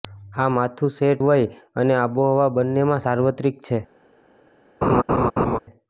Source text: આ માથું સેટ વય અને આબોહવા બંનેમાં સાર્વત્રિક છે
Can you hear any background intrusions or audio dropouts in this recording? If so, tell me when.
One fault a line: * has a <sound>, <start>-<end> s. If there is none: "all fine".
* has a laugh, 4.8-5.6 s